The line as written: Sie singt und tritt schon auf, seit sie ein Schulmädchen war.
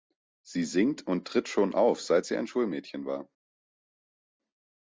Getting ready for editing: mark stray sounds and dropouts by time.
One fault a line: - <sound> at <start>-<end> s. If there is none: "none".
none